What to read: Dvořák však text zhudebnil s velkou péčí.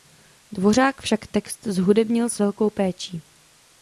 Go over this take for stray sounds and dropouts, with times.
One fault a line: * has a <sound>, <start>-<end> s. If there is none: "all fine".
all fine